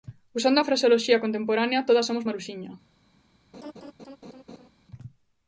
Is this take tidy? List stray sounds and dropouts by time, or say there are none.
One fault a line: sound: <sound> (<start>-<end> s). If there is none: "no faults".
sound: laugh (3.5-4.7 s)